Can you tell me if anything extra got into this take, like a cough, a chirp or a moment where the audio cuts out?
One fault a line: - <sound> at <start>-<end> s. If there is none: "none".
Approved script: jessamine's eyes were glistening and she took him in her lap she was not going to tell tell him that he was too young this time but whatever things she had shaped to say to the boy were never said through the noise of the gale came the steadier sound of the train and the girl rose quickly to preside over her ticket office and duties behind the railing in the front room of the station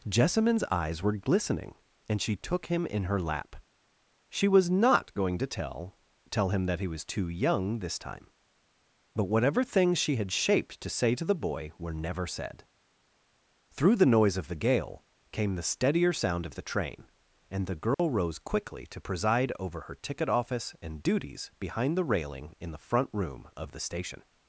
- dropout at 17.9-18.0 s